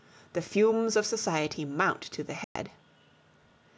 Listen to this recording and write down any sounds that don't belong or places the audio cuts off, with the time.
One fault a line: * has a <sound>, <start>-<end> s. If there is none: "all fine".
* has a dropout, 2.4-2.6 s